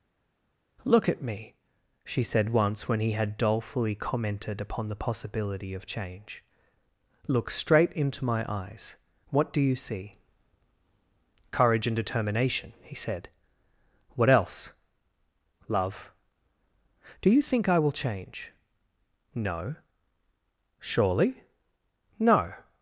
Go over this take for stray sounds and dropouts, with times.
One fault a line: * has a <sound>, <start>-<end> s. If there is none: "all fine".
all fine